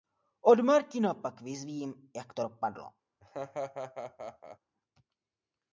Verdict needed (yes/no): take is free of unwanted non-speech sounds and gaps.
no